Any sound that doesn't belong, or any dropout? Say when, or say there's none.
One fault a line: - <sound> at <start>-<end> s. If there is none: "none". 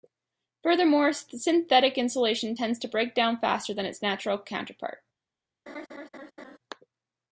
- laugh at 5.7-6.6 s